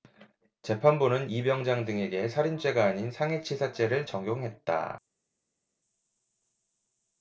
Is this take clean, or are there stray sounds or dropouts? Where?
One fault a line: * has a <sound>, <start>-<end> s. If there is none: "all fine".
all fine